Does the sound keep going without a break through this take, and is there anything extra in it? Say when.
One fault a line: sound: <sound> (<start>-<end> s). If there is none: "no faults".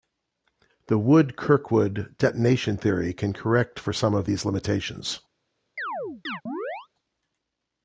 sound: chirp (5.8-6.9 s)